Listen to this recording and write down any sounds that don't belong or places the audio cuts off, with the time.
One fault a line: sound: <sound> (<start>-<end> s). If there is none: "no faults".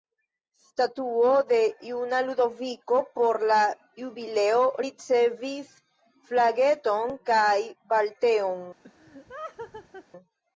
sound: laugh (8.8-10.1 s)